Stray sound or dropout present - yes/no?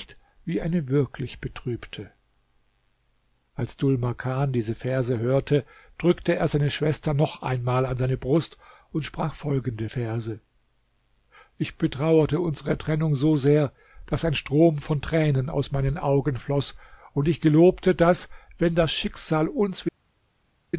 no